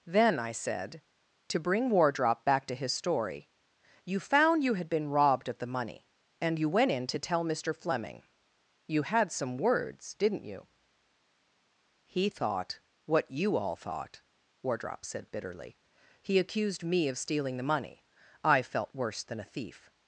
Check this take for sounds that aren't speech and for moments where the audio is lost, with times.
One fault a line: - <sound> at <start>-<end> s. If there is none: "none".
none